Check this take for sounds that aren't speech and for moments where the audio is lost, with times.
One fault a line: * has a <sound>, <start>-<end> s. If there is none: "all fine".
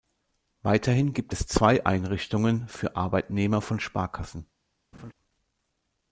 * has a laugh, 4.9-5.1 s